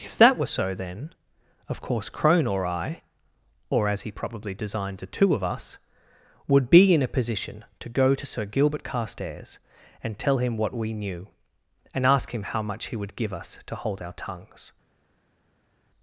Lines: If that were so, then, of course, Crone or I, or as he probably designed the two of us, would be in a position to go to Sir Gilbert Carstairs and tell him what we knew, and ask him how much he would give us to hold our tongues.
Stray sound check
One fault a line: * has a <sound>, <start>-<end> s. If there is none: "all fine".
all fine